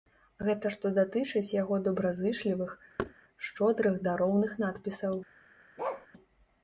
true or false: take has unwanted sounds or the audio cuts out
true